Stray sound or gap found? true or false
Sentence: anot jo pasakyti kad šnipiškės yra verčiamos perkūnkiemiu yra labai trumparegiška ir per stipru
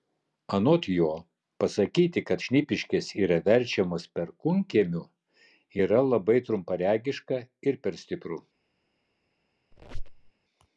true